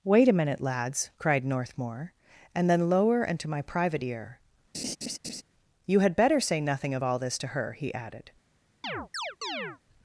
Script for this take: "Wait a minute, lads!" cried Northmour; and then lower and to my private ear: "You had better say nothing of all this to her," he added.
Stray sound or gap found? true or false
true